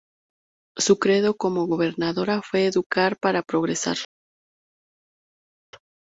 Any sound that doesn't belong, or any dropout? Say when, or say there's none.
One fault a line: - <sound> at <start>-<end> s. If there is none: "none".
none